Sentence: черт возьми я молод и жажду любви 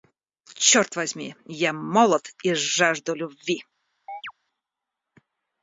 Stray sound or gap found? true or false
true